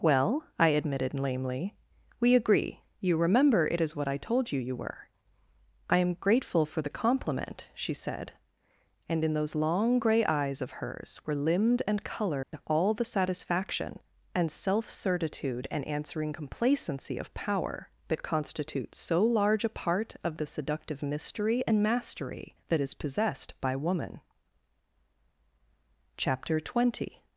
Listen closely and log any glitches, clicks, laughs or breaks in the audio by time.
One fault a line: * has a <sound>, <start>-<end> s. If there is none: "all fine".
* has a dropout, 12.4-12.5 s